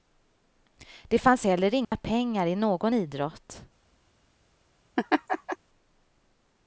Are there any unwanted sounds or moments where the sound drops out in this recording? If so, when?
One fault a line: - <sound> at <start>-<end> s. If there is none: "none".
- dropout at 1.8-1.9 s
- laugh at 5.0-5.6 s